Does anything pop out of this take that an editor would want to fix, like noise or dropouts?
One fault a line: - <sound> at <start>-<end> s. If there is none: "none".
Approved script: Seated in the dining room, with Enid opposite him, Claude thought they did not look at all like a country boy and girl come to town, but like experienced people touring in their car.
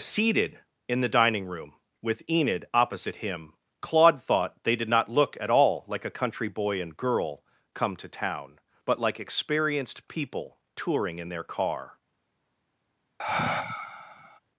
- sigh at 13.2-14.4 s